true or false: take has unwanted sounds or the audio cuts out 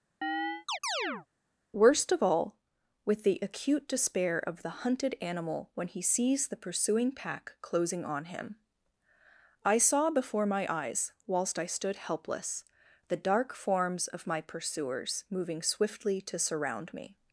true